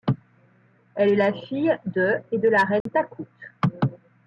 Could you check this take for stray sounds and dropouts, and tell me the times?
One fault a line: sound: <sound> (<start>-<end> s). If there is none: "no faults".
sound: dropout (2.8-2.9 s)